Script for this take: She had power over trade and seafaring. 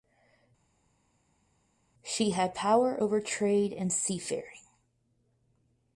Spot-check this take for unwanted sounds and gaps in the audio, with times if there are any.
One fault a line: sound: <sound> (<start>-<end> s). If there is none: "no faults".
no faults